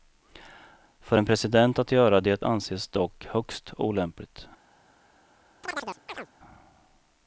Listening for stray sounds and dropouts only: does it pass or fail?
fail